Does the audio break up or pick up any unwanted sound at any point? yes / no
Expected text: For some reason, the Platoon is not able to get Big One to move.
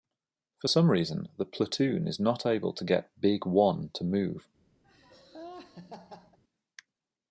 yes